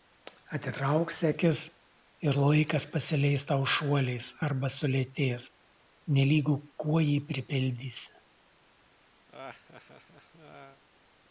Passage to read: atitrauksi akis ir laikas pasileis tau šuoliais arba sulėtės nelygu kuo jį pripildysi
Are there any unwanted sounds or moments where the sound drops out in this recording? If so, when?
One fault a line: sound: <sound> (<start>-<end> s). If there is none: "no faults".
sound: laugh (9.3-10.8 s)